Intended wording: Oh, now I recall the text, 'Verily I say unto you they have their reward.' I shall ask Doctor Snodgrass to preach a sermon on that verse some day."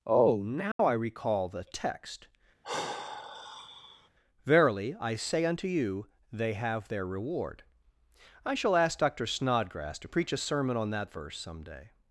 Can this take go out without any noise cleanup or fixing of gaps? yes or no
no